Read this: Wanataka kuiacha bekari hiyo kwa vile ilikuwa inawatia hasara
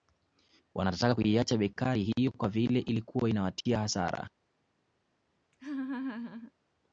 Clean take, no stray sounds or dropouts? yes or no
no